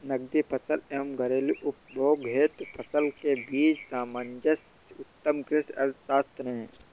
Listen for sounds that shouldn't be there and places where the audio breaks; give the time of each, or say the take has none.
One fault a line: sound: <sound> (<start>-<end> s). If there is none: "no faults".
no faults